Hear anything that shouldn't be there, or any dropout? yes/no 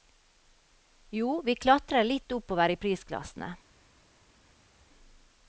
no